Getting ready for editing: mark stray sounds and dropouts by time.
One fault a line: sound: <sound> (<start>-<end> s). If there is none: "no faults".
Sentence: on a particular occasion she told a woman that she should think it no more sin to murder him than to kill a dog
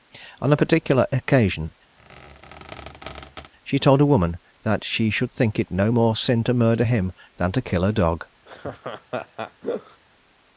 sound: squeak (2.0-3.5 s)
sound: laugh (8.5-10.0 s)